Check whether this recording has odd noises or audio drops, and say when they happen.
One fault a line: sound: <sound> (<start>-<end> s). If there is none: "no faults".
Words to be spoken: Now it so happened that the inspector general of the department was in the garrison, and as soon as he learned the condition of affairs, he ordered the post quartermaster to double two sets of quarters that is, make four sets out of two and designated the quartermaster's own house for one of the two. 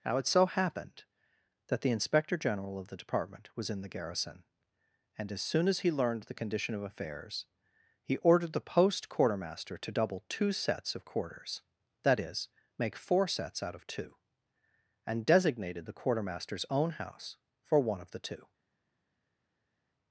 no faults